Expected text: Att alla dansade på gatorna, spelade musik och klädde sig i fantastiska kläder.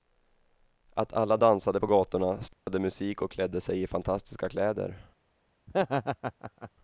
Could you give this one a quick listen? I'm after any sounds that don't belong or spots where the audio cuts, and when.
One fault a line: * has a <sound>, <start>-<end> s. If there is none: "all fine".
* has a dropout, 2.5-2.7 s
* has a laugh, 5.7-6.7 s